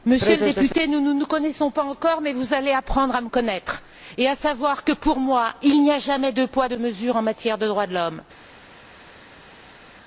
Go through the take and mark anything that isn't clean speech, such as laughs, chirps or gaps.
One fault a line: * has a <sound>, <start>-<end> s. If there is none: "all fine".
all fine